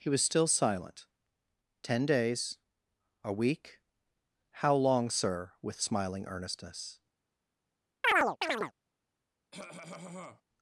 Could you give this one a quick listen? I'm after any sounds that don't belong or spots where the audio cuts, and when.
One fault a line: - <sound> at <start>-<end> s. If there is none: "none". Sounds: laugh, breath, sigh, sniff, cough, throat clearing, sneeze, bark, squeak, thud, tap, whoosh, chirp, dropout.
- chirp at 8.0-8.7 s
- cough at 9.5-10.4 s